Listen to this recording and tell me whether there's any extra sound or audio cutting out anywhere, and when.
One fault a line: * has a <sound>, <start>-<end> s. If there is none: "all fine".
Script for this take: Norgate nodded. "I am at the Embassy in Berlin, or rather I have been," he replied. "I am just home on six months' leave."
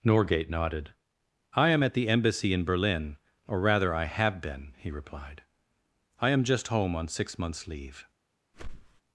* has a whoosh, 8.5-9.0 s